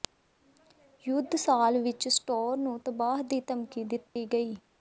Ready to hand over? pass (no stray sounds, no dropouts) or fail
fail